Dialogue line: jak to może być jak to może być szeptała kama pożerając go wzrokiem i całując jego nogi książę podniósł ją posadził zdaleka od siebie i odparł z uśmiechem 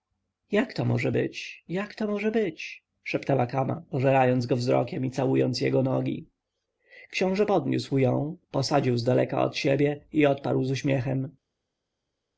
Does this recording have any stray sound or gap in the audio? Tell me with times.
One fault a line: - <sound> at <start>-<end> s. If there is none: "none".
none